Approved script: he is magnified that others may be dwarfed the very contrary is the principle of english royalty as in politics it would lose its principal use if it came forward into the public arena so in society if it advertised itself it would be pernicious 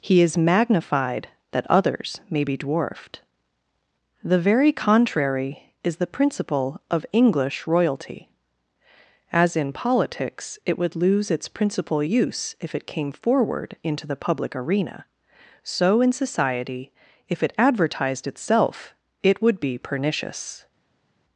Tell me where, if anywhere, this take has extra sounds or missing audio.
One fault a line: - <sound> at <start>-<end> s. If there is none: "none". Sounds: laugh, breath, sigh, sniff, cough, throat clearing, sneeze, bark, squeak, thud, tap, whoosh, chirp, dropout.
none